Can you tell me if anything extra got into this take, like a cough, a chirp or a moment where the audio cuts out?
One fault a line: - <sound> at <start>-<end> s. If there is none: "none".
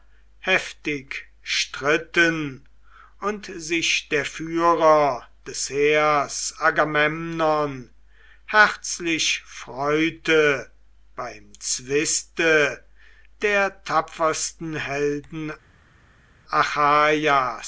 none